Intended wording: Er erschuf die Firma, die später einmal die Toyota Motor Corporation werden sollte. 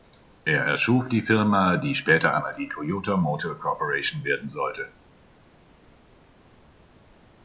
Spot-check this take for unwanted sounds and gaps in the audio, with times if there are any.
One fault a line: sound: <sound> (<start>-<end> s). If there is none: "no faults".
no faults